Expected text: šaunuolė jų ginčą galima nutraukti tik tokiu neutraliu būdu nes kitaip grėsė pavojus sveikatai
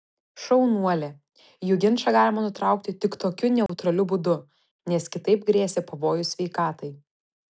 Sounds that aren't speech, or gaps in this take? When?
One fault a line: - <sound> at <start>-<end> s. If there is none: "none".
- dropout at 3.7-3.7 s